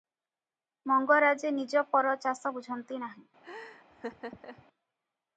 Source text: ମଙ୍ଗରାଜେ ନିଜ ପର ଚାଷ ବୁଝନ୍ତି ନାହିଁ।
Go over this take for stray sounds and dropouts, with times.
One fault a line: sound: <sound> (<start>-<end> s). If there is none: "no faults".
sound: laugh (3.4-4.7 s)